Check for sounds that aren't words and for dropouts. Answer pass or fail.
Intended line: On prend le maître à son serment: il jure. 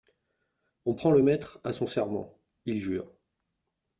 pass